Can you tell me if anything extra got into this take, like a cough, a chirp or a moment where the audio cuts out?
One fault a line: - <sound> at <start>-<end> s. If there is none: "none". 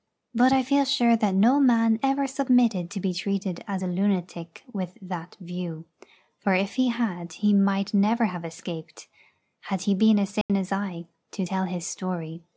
- dropout at 10.4-10.5 s